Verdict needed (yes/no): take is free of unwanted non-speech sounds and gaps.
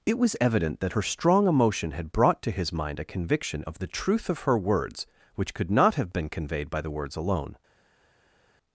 yes